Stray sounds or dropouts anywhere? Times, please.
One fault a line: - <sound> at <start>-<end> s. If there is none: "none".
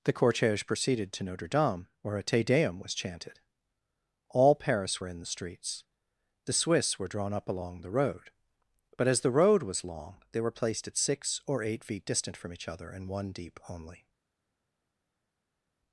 none